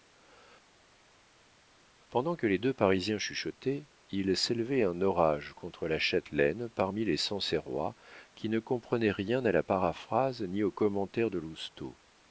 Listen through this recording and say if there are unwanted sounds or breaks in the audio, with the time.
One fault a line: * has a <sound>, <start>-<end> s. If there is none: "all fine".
all fine